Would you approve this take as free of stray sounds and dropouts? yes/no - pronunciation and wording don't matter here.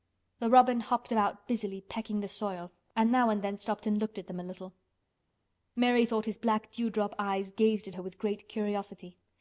yes